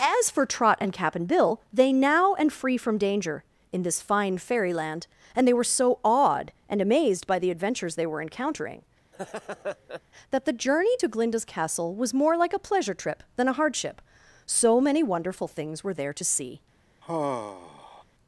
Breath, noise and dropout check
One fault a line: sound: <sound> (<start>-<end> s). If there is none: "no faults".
sound: laugh (9.1-10.0 s)
sound: sigh (17.0-18.0 s)